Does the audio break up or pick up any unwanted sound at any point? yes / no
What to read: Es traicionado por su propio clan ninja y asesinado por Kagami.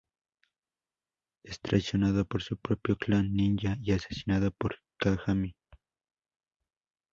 no